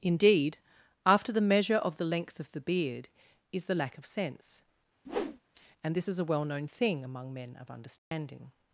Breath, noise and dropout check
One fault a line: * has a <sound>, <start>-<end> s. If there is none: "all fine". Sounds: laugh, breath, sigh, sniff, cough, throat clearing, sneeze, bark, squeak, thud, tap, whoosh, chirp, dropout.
* has a whoosh, 5.0-5.4 s
* has a dropout, 8.0-8.1 s